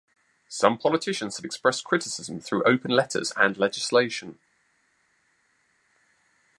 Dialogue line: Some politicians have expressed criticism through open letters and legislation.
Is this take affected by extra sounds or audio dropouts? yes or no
no